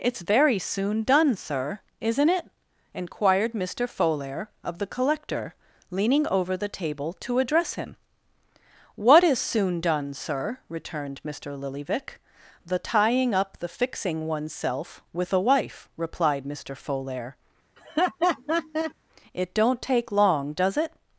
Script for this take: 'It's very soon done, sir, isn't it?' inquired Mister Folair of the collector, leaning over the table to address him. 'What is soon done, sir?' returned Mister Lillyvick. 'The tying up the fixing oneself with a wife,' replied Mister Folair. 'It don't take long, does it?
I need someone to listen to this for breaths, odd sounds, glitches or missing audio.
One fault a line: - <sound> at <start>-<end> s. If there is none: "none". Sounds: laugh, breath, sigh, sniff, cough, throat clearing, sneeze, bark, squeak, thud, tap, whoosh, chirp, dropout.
- laugh at 17.8-18.9 s